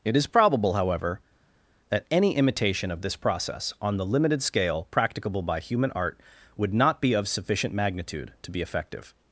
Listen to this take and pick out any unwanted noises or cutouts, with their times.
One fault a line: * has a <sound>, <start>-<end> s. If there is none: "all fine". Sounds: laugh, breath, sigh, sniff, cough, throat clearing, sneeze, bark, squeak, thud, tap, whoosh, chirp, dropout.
all fine